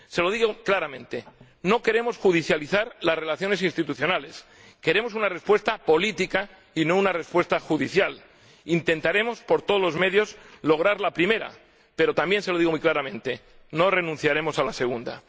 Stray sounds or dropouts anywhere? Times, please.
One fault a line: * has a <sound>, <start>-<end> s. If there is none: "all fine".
all fine